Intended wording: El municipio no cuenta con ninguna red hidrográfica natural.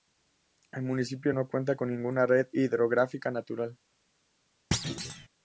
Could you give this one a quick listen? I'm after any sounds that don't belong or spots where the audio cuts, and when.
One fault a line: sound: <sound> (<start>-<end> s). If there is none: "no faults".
sound: thud (4.7-5.3 s)